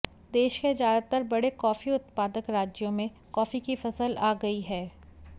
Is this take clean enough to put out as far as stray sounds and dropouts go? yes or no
yes